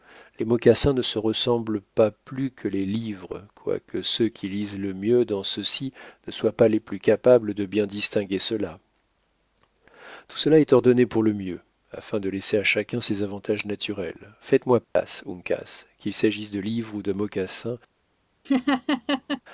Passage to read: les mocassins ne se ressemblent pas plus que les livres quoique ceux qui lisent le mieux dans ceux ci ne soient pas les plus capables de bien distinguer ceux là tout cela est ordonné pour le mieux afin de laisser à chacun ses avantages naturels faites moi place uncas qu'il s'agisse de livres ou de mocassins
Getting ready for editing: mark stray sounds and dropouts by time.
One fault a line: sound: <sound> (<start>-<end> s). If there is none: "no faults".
sound: dropout (14.8-15.0 s)
sound: laugh (18.4-19.4 s)